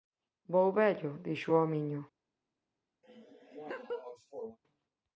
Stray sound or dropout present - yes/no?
yes